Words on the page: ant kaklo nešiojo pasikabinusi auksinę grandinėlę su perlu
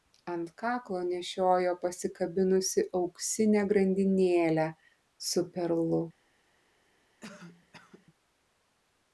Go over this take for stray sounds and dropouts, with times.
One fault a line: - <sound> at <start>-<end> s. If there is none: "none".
- cough at 7.2-8.1 s